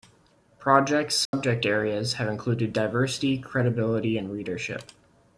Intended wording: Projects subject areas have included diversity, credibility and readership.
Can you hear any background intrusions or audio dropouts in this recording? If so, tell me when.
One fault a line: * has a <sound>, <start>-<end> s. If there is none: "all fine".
* has a dropout, 1.3-1.3 s